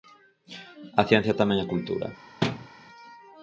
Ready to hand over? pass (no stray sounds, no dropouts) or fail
fail